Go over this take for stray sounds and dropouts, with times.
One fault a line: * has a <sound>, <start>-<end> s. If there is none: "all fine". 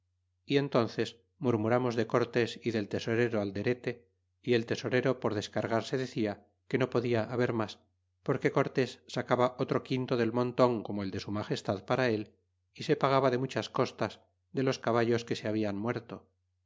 all fine